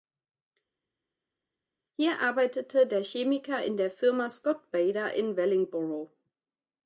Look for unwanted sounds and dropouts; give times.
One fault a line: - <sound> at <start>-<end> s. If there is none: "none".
none